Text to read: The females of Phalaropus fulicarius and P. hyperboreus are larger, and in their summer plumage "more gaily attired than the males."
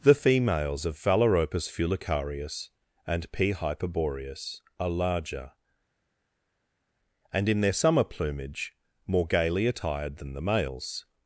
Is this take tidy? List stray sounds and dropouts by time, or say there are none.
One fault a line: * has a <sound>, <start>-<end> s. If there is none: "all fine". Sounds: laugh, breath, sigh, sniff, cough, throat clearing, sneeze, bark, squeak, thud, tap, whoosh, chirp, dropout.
all fine